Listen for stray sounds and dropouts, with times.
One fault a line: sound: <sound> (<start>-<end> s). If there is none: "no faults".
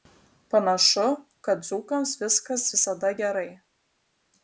no faults